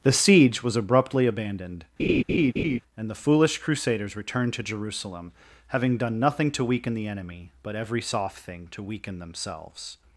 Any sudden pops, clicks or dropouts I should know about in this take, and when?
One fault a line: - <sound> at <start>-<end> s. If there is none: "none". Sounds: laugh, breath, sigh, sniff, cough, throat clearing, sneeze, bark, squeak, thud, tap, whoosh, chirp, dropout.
- laugh at 2.0-2.8 s